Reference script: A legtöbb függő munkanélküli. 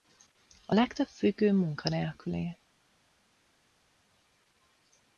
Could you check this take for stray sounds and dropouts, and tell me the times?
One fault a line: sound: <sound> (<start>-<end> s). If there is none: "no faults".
no faults